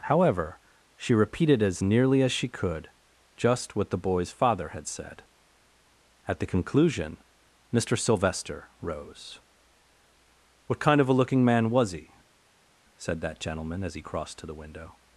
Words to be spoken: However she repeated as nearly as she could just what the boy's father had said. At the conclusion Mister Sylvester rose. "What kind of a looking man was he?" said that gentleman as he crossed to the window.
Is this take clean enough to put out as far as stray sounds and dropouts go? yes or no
yes